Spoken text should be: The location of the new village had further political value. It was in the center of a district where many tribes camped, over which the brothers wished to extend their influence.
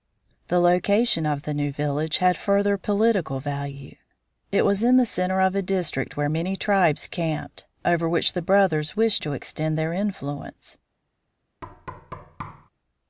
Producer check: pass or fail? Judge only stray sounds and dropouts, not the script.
fail